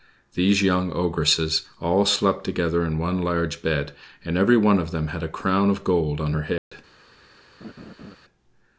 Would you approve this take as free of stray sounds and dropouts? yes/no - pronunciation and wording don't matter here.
no